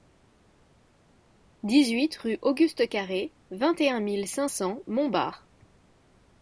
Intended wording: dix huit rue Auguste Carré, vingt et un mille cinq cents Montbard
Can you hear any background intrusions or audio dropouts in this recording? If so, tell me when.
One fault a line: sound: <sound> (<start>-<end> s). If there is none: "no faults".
no faults